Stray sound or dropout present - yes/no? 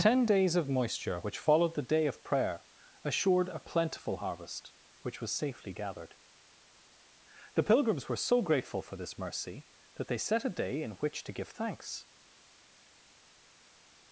no